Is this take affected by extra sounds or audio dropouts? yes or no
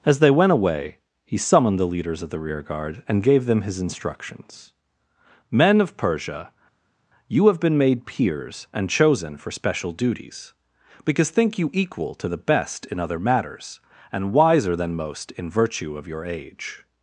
no